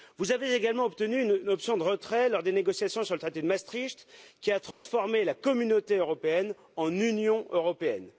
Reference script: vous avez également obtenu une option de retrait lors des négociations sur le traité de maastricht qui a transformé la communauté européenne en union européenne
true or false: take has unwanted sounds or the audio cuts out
true